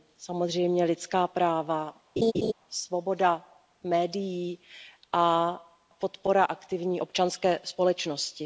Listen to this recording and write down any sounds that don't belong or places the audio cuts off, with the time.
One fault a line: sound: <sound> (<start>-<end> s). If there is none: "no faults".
sound: laugh (2.2-2.5 s)